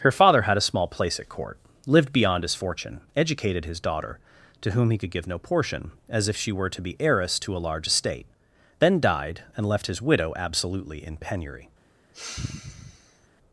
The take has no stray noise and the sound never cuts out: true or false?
false